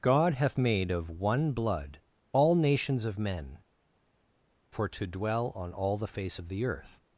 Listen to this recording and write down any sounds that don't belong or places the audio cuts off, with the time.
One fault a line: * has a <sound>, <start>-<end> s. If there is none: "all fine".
all fine